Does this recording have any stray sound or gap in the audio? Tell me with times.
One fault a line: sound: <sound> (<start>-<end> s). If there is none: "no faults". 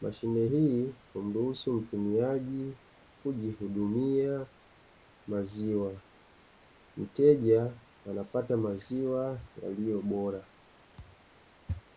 sound: thud (11.0-11.3 s)